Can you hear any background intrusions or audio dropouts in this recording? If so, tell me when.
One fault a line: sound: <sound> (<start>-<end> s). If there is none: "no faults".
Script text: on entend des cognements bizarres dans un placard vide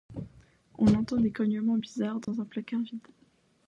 sound: dropout (2.2-2.3 s)